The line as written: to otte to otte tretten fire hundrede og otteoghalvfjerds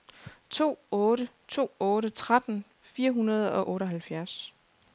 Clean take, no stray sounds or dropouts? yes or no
yes